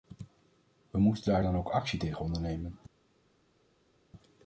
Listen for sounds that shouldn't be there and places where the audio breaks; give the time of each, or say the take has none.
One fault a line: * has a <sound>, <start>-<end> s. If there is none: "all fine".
all fine